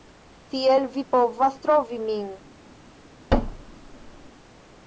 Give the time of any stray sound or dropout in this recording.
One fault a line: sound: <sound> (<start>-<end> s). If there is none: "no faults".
sound: thud (3.3-4.3 s)